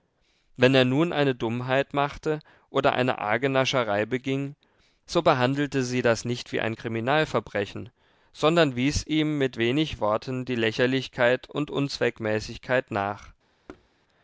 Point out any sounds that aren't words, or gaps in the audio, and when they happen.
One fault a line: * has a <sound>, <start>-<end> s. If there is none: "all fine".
* has a thud, 13.7-13.9 s